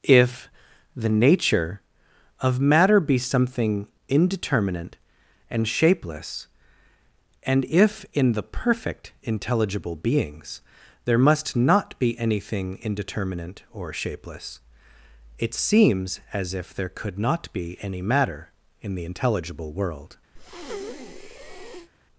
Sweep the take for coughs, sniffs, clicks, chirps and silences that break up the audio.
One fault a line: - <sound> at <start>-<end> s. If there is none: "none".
- breath at 20.4-21.9 s